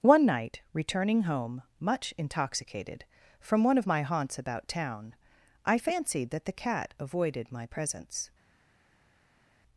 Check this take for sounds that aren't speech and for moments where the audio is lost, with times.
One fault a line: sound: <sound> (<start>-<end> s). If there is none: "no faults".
no faults